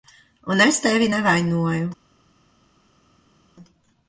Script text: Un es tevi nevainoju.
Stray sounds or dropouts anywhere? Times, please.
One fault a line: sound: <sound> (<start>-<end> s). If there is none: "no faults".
no faults